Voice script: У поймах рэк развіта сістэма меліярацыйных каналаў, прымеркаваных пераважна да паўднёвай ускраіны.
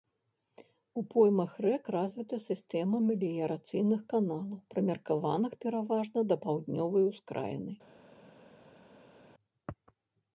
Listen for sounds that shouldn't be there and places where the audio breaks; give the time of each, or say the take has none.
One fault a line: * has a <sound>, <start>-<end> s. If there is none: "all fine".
all fine